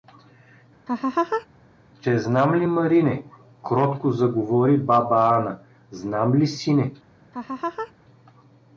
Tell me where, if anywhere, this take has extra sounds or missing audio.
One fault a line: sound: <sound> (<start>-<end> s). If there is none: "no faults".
sound: laugh (0.9-1.5 s)
sound: laugh (7.3-7.9 s)